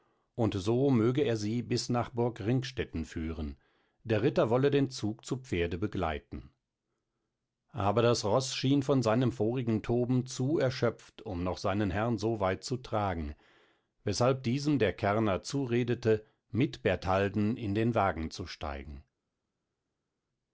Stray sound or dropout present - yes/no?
no